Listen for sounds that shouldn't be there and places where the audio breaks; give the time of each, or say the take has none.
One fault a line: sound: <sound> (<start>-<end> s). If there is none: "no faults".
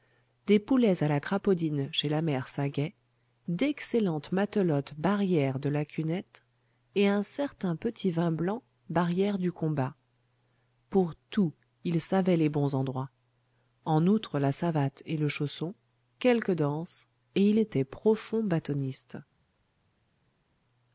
no faults